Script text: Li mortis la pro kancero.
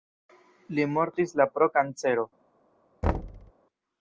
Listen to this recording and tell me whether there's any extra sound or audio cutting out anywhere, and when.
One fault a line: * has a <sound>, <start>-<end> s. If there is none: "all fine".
* has a thud, 3.0-3.5 s